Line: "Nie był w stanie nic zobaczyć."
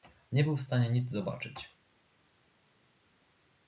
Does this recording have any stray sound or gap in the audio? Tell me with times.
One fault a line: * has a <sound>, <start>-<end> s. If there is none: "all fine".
all fine